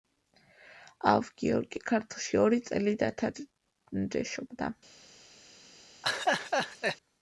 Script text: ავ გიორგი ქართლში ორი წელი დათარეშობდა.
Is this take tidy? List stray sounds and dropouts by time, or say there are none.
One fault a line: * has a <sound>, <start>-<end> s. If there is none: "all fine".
* has a laugh, 6.0-7.0 s